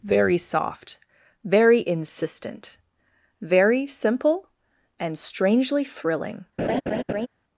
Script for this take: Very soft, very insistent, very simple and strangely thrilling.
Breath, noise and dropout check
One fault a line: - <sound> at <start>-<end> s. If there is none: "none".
- laugh at 6.6-7.3 s